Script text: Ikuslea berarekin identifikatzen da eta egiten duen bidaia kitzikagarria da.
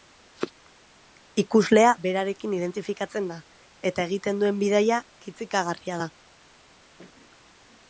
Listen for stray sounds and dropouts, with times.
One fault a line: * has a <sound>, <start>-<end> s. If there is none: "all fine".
all fine